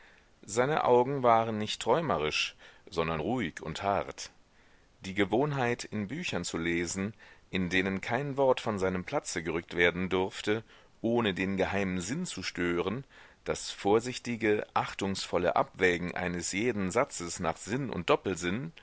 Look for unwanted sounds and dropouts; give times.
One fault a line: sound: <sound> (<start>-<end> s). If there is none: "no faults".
no faults